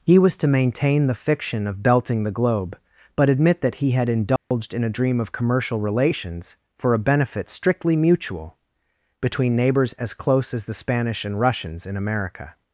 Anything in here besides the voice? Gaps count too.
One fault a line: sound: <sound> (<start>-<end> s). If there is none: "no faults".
sound: dropout (4.4-4.5 s)